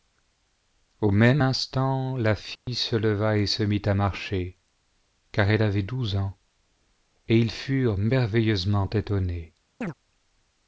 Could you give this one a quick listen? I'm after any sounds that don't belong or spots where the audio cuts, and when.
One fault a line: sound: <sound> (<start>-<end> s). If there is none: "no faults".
sound: dropout (2.6-2.7 s)
sound: chirp (9.8-9.9 s)